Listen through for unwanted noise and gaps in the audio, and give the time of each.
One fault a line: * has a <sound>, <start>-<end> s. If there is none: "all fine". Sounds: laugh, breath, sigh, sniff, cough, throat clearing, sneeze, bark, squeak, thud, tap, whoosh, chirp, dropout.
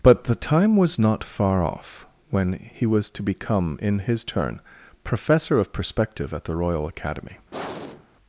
* has a sigh, 7.5-8.1 s